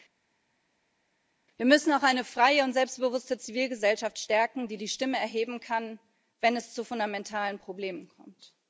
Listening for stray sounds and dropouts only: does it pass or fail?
pass